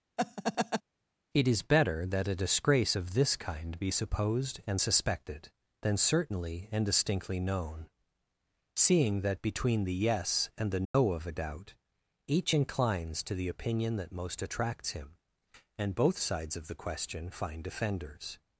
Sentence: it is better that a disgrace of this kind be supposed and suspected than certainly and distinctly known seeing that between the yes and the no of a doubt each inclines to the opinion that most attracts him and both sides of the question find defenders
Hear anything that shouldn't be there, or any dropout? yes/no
yes